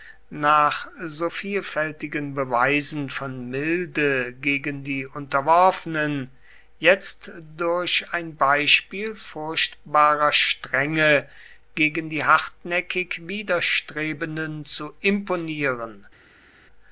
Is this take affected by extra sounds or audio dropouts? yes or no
no